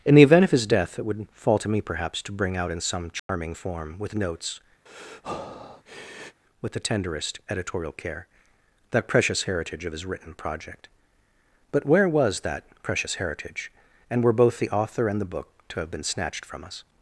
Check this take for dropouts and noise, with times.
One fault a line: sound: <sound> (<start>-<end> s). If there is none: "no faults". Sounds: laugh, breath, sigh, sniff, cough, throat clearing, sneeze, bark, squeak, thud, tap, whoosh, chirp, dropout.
sound: dropout (3.2-3.3 s)
sound: breath (4.9-6.4 s)